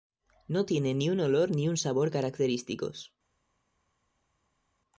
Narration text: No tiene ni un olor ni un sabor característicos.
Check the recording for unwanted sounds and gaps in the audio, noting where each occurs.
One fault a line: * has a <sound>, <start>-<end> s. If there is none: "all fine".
all fine